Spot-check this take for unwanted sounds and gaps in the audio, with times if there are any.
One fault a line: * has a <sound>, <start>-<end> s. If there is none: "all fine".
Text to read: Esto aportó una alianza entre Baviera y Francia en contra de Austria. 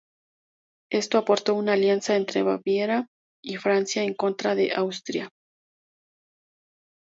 all fine